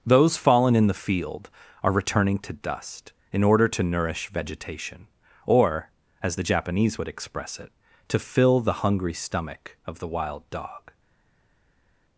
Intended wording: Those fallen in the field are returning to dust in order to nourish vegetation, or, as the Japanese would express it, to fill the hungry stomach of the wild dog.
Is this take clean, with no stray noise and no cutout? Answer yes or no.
yes